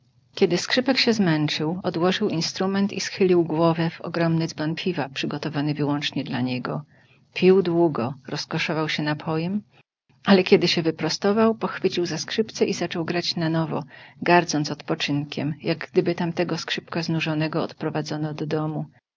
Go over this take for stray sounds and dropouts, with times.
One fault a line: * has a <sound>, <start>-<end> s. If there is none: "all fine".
all fine